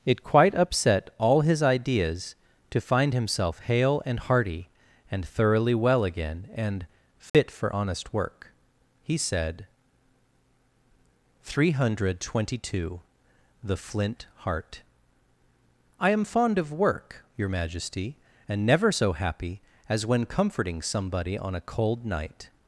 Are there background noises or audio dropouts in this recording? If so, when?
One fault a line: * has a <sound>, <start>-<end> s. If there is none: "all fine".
* has a dropout, 7.3-7.3 s